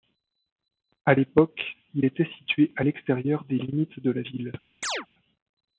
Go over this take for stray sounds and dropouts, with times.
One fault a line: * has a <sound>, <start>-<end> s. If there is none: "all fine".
* has a chirp, 4.8-5.1 s